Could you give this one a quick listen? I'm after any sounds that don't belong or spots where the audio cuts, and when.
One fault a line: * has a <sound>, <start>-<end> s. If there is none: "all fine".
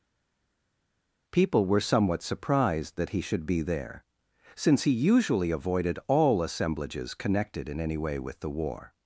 all fine